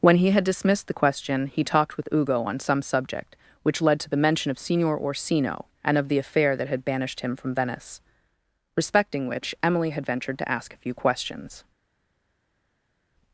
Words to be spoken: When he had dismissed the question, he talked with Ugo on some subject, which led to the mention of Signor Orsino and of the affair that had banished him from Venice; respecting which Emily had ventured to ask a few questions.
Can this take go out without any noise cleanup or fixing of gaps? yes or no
yes